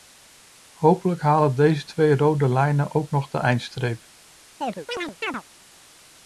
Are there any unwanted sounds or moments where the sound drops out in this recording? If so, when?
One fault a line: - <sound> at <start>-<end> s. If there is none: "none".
- chirp at 4.6-5.4 s